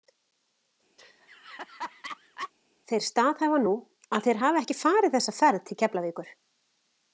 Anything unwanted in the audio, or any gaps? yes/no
yes